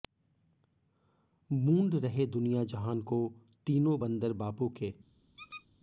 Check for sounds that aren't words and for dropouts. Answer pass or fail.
fail